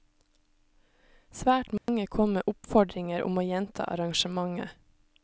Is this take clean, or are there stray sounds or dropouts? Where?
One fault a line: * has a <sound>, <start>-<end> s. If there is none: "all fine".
* has a dropout, 1.8-1.9 s